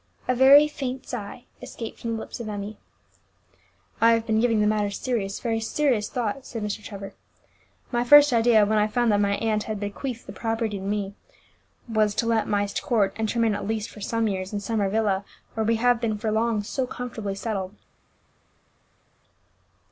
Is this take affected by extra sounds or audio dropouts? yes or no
no